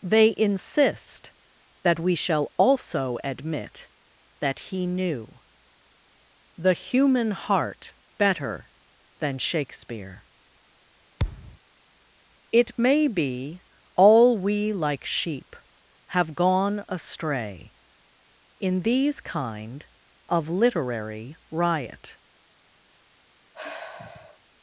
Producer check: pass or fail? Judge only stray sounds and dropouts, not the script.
fail